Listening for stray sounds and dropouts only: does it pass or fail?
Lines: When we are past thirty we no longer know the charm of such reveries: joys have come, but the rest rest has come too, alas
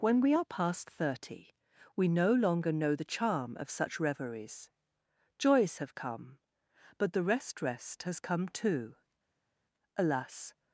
pass